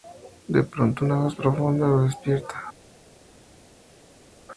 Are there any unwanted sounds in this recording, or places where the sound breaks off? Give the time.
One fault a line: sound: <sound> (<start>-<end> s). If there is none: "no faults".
no faults